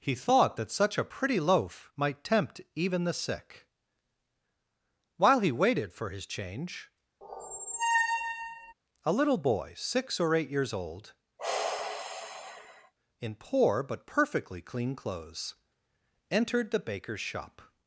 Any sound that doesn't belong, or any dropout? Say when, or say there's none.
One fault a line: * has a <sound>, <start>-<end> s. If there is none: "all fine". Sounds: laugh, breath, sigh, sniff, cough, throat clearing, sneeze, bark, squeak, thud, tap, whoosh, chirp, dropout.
* has a squeak, 7.2-8.7 s
* has a sigh, 11.4-12.9 s